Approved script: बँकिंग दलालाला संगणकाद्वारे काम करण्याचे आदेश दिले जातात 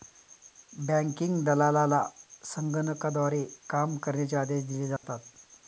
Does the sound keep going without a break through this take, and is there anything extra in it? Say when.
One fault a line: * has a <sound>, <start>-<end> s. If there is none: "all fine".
* has a dropout, 5.0-5.0 s